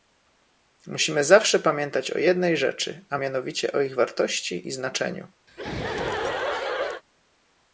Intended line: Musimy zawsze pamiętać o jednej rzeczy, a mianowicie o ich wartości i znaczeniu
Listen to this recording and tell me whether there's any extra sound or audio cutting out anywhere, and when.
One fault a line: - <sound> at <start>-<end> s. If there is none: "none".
- laugh at 5.5-7.0 s